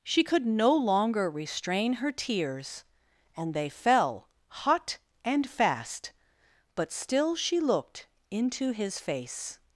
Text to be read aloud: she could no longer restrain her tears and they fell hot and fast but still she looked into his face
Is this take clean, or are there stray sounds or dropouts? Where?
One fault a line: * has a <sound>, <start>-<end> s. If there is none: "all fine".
all fine